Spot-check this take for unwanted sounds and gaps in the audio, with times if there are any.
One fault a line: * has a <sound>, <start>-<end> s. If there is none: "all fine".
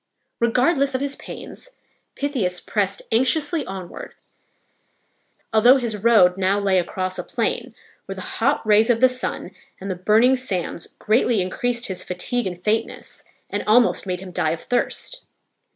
all fine